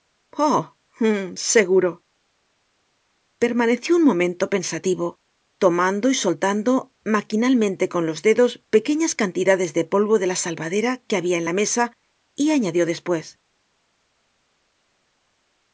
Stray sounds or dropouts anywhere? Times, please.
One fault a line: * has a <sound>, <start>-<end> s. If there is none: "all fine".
all fine